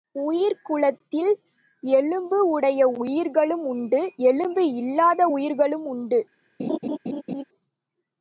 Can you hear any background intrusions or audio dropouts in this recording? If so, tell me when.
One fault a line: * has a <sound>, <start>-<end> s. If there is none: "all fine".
* has a laugh, 6.6-7.4 s